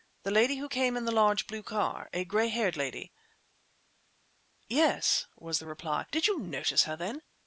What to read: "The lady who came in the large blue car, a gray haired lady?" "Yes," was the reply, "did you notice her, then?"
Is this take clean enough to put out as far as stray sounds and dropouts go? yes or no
yes